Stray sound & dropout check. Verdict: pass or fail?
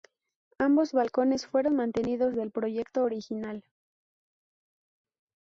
pass